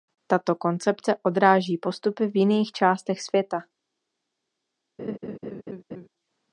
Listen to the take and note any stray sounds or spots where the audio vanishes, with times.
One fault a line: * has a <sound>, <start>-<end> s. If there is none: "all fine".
* has a laugh, 5.0-6.1 s